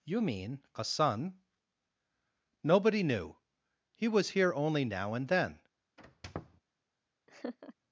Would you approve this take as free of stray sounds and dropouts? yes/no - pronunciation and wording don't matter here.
no